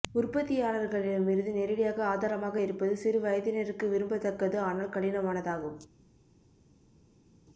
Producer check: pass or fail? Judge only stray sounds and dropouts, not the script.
pass